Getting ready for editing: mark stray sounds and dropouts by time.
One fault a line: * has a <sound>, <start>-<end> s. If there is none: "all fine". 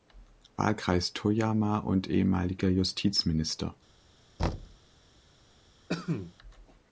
* has a thud, 4.4-4.8 s
* has a cough, 5.9-6.3 s